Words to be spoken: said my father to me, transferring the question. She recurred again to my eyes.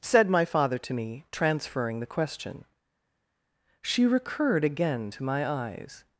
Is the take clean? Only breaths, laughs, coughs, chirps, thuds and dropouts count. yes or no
yes